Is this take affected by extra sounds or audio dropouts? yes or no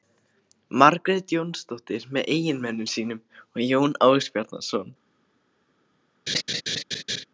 yes